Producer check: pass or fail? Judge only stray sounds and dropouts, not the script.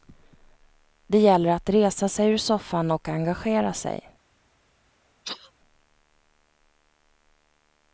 fail